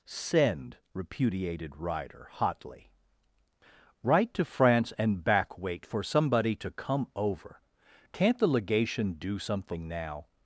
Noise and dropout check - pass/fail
pass